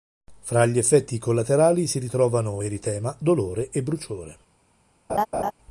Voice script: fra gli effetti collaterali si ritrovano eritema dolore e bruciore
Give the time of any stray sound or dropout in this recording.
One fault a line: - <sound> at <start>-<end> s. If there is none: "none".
- laugh at 5.1-5.5 s